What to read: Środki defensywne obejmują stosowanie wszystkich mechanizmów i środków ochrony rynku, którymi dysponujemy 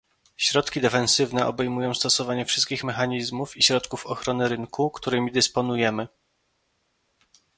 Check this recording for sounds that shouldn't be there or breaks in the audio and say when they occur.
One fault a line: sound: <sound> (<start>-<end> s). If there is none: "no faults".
no faults